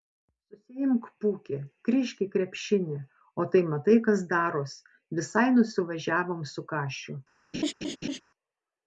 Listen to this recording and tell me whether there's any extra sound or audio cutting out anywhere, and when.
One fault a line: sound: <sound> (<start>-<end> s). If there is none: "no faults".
sound: laugh (7.5-8.2 s)